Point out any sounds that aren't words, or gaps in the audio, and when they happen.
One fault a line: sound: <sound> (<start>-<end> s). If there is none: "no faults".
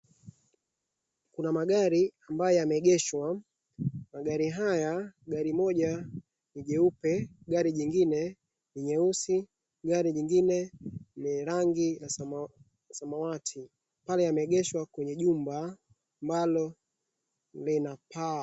no faults